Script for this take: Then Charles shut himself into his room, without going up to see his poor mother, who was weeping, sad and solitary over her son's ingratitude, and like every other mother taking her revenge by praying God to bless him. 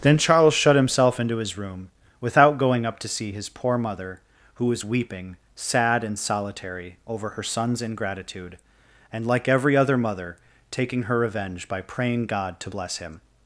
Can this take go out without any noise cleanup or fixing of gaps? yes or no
yes